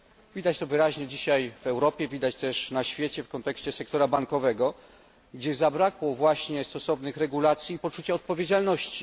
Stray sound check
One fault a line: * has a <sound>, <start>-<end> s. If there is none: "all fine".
all fine